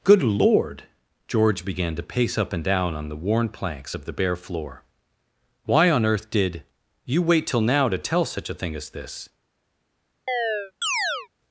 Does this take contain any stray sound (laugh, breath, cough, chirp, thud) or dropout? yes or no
yes